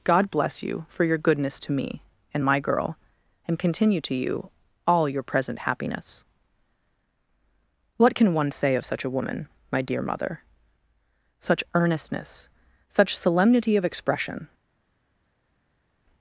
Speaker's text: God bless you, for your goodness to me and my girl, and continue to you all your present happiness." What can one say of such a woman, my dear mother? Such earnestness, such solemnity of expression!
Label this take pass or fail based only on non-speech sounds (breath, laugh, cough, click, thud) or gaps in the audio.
pass